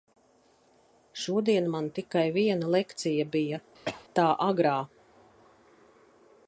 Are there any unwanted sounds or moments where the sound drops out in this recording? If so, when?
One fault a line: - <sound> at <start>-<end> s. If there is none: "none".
- cough at 3.8-4.0 s